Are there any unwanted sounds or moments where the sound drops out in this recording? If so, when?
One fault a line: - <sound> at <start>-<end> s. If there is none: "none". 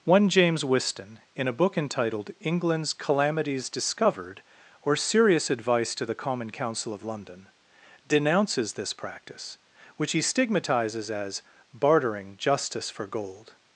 none